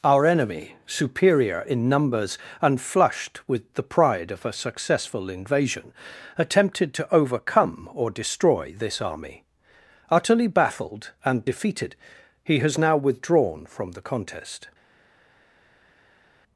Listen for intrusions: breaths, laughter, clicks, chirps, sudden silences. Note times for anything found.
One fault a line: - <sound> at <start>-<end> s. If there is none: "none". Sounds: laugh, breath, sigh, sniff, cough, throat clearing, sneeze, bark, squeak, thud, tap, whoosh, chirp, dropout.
none